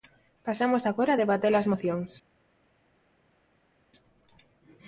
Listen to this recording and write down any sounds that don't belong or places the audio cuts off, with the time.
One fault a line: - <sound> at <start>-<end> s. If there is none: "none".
none